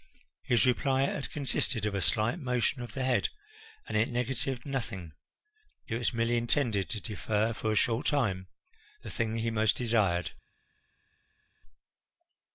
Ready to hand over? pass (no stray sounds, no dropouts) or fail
pass